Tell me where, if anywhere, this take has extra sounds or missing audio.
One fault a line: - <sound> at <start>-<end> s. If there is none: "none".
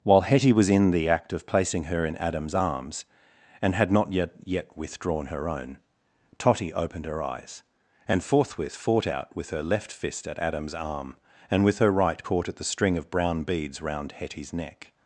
none